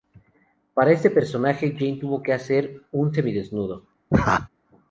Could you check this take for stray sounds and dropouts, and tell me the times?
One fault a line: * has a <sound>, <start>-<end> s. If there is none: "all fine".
* has a laugh, 4.1-4.5 s